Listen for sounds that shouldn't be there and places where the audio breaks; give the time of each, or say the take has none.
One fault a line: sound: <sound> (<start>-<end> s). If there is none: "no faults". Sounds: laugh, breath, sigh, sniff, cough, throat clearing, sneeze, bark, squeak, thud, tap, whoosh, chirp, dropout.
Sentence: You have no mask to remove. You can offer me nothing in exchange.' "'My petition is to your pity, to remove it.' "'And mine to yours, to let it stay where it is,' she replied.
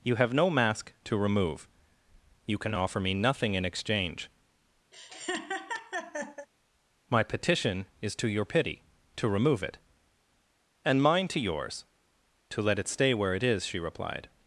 sound: laugh (4.9-6.5 s)